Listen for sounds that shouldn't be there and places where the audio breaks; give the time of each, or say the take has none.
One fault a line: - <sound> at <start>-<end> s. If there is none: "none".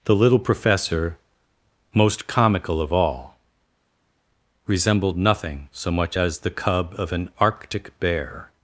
none